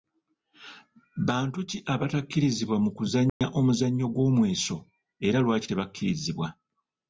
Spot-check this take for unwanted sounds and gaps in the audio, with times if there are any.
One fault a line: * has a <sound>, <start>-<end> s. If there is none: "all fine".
* has a dropout, 3.3-3.4 s